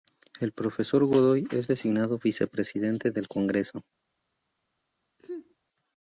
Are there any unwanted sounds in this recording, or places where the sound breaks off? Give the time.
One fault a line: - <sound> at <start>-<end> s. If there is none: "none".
- sneeze at 5.2-5.5 s